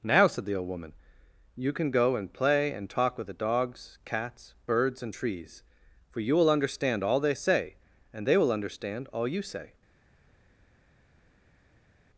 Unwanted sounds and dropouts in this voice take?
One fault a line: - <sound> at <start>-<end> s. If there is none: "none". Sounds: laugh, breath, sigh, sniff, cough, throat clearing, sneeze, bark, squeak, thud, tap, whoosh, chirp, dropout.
none